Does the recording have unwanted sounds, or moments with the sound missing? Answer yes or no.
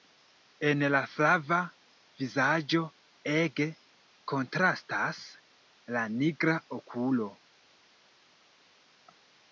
no